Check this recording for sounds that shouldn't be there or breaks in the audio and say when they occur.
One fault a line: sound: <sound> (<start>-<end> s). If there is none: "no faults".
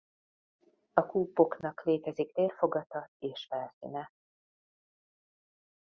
no faults